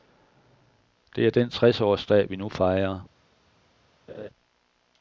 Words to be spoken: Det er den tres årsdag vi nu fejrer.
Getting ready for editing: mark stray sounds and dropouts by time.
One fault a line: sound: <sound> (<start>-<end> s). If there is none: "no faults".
sound: laugh (4.1-4.3 s)